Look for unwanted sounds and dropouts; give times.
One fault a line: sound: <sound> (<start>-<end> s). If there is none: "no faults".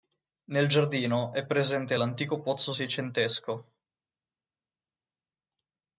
no faults